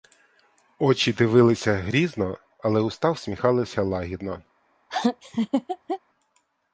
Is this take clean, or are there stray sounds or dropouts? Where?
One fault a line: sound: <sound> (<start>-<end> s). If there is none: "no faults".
sound: laugh (4.9-6.0 s)